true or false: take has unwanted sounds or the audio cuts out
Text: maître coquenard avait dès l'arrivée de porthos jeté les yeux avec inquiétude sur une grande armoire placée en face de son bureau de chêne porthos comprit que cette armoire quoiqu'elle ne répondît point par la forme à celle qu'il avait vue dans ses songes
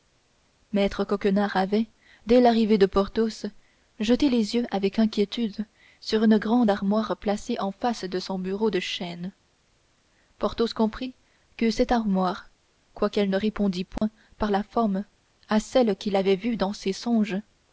true